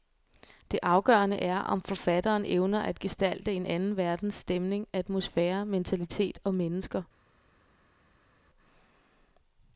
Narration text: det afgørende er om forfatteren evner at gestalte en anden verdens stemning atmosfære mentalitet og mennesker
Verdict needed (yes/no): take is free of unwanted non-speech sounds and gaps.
yes